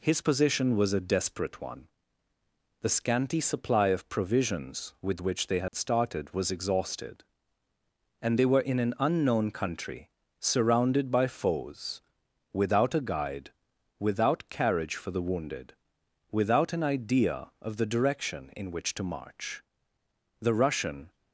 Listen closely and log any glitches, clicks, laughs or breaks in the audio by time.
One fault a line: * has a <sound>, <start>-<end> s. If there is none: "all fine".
* has a dropout, 5.7-5.7 s